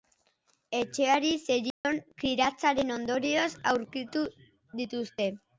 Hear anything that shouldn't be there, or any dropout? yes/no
yes